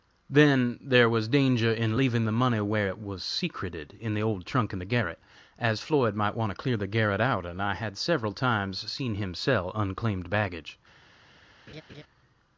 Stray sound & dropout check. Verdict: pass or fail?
fail